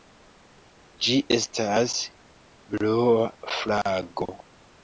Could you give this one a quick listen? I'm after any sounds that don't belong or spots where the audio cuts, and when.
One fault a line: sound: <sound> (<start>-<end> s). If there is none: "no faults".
no faults